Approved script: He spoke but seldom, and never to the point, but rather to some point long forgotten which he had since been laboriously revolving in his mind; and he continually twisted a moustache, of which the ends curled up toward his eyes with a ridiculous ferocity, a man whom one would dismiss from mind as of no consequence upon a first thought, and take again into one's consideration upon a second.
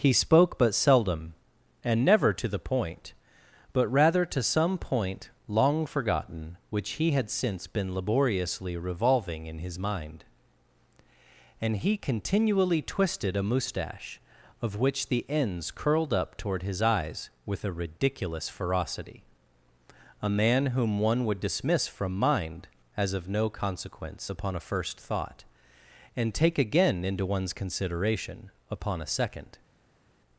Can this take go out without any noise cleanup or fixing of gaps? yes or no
yes